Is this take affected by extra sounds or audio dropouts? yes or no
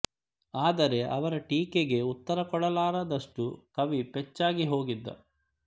no